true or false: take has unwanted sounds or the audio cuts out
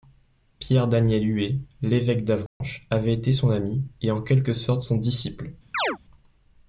true